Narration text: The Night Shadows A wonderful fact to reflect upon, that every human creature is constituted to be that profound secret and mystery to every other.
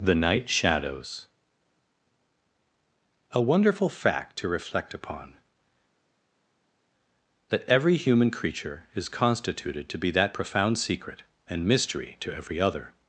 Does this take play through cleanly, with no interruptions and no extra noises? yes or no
yes